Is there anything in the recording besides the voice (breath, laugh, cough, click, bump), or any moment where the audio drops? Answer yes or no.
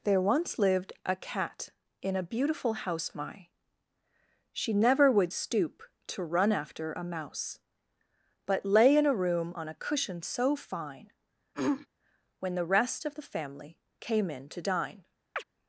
yes